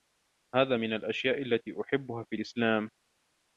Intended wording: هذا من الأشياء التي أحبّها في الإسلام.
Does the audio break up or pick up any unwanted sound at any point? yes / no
no